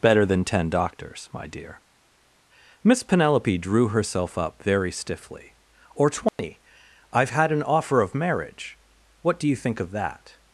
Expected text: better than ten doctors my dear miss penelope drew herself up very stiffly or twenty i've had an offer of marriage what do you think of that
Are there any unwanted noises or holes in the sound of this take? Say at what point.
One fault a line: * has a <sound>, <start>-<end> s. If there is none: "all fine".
* has a dropout, 6.3-6.4 s